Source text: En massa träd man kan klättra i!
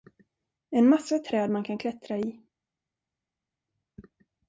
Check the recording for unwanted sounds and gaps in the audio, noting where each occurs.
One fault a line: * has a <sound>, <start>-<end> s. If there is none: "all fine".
all fine